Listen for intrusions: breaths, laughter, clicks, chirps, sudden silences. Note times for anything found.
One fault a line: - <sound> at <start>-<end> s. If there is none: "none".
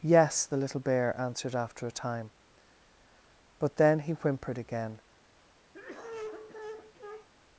- cough at 5.7-7.3 s